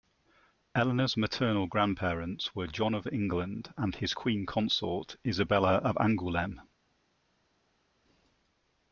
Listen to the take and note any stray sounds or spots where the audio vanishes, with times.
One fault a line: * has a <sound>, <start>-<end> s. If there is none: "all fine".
all fine